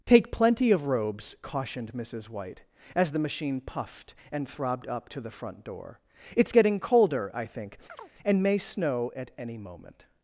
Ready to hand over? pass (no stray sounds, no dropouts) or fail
fail